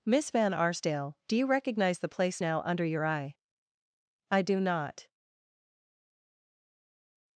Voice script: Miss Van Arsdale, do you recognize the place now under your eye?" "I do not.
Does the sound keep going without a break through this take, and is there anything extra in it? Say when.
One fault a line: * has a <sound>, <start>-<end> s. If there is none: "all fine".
all fine